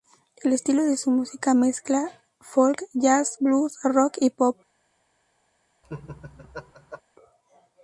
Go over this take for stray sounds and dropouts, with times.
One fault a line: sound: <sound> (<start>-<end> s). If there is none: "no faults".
sound: laugh (5.8-7.0 s)